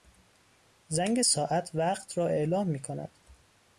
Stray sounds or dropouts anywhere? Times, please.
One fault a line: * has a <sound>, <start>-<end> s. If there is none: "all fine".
all fine